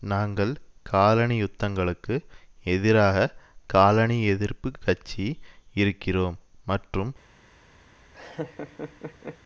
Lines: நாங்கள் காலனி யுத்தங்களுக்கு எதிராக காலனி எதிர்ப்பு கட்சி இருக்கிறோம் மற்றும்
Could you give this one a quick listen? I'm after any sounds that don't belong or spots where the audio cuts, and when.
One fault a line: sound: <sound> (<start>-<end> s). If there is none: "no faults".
sound: laugh (8.1-9.4 s)